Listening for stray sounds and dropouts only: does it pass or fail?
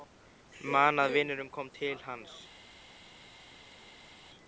pass